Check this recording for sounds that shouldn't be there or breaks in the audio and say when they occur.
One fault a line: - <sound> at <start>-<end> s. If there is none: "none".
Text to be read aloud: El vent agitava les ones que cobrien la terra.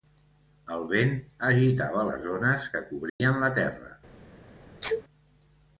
- dropout at 3.1-3.2 s
- sneeze at 4.8-5.0 s